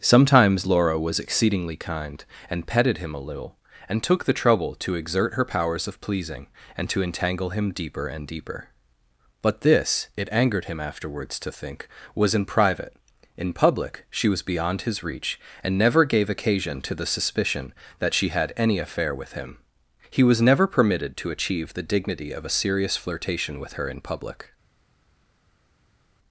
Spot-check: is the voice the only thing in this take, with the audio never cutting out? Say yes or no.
yes